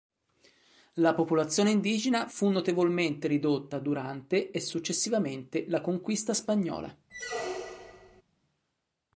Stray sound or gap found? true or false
true